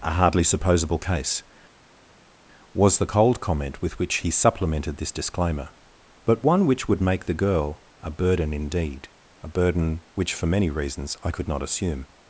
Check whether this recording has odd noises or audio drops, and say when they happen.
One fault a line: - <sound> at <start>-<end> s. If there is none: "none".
none